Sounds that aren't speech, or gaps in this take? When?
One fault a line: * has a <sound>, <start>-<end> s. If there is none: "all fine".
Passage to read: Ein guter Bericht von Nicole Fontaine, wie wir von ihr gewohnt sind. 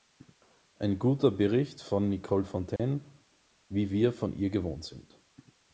* has a dropout, 2.8-2.8 s